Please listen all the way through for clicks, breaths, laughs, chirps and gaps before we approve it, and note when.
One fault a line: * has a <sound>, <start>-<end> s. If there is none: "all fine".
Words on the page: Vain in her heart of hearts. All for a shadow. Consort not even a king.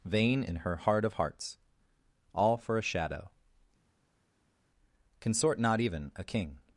all fine